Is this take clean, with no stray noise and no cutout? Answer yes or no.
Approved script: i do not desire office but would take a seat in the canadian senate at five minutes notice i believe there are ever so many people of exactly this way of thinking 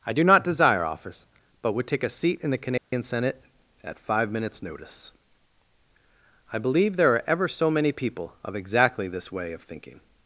no